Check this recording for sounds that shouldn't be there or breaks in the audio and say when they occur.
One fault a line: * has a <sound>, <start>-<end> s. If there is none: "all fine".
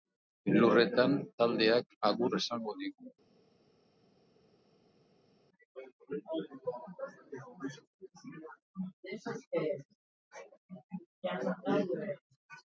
all fine